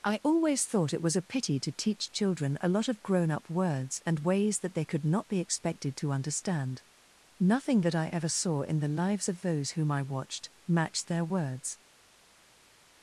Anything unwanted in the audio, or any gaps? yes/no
no